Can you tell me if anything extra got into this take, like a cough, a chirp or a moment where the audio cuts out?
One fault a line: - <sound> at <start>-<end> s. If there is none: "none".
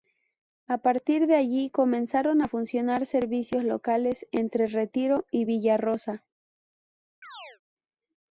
- chirp at 7.2-7.6 s